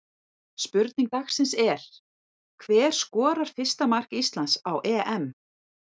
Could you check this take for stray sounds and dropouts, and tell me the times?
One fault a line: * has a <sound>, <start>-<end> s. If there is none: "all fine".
all fine